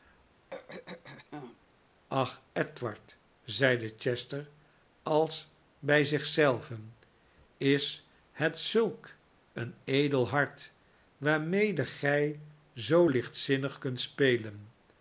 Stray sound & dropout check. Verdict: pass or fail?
fail